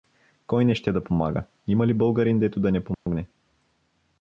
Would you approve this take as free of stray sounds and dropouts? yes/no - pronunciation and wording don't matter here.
no